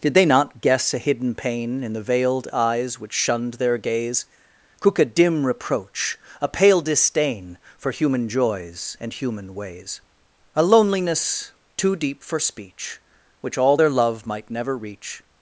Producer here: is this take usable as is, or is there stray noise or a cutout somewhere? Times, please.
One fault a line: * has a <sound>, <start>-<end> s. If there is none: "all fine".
all fine